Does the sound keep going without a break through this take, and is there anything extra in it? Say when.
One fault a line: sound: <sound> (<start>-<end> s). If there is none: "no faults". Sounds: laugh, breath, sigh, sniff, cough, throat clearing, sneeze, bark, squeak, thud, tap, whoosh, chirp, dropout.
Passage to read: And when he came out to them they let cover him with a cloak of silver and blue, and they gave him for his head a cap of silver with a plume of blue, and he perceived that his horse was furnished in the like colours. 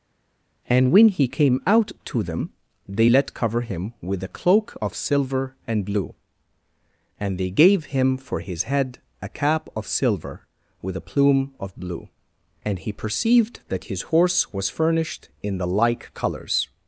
no faults